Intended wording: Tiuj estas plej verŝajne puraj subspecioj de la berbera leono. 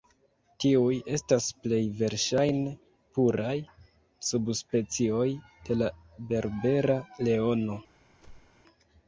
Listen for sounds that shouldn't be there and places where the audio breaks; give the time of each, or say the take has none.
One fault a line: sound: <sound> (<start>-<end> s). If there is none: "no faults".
sound: whoosh (8.2-8.6 s)